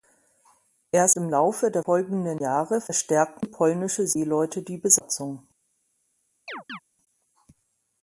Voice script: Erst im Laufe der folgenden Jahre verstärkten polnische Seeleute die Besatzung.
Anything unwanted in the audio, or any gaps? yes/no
yes